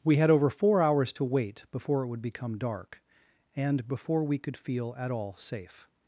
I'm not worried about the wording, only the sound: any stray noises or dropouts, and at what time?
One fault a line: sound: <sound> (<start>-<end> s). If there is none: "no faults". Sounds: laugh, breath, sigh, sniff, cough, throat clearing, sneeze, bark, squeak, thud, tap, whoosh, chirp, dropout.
no faults